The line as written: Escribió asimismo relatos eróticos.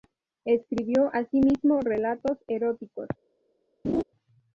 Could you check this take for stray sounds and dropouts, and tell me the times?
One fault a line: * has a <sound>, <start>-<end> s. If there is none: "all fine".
* has a laugh, 3.8-4.0 s